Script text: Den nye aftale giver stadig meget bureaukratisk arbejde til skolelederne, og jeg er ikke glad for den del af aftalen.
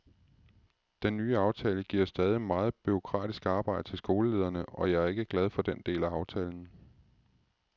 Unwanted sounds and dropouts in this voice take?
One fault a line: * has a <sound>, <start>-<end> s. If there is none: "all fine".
all fine